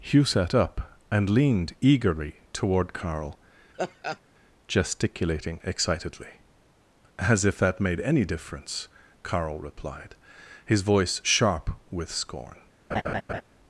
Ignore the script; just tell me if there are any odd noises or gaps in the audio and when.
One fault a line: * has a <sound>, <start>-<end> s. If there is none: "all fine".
* has a laugh, 3.7-4.2 s
* has a laugh, 12.9-13.4 s